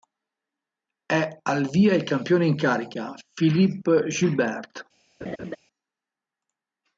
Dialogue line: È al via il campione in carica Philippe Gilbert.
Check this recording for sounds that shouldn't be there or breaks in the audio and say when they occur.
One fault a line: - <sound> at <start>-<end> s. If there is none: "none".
- laugh at 5.2-5.6 s